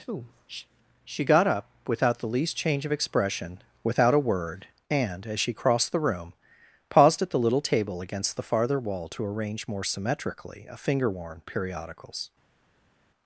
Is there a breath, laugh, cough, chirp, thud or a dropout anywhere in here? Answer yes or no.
no